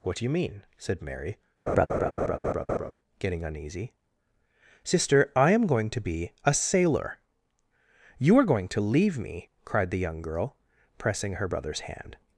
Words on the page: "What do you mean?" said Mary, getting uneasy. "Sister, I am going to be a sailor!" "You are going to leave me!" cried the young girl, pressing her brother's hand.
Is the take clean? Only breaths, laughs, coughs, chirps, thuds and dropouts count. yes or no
no